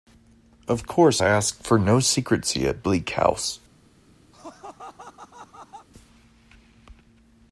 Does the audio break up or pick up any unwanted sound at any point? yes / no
yes